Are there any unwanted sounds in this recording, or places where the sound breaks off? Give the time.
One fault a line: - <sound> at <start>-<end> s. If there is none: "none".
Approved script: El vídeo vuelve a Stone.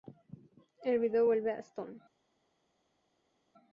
none